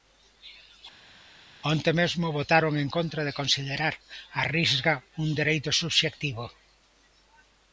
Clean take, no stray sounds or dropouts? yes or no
yes